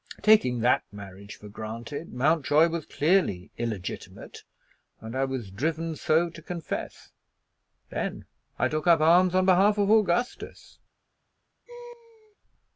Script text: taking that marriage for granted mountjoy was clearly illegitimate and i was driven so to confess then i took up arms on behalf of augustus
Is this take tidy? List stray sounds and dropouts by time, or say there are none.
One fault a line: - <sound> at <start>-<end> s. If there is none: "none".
- laugh at 11.7-12.4 s